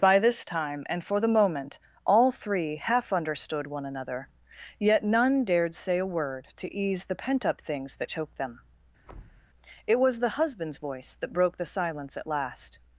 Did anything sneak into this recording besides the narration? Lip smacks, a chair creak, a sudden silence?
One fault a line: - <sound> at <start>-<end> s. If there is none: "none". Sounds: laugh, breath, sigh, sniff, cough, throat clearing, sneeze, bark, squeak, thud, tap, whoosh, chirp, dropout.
- thud at 9.0-9.5 s